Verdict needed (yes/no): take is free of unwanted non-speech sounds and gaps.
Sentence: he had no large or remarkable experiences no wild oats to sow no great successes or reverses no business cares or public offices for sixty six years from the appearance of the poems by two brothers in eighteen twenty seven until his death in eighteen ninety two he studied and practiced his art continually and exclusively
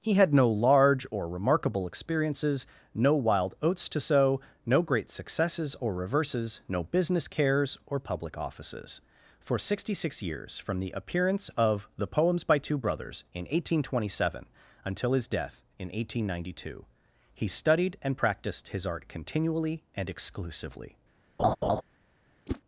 no